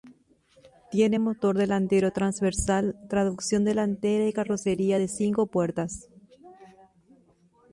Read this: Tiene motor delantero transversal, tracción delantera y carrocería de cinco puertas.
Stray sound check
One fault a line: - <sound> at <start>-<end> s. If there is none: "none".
none